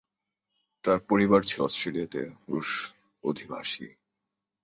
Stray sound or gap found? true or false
false